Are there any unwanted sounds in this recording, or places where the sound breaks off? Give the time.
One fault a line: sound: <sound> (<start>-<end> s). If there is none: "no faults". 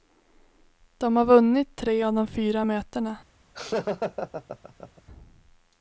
sound: laugh (3.5-5.0 s)